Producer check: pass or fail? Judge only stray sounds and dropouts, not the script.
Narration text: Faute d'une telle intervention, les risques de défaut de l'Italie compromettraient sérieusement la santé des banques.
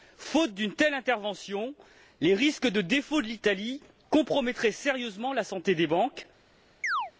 fail